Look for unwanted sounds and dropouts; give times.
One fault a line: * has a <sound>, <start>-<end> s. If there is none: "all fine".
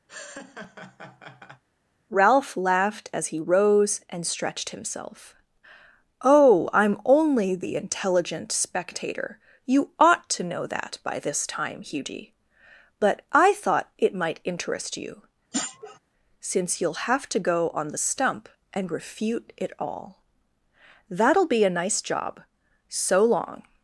* has a laugh, 0.1-1.6 s
* has a sniff, 15.5-16.0 s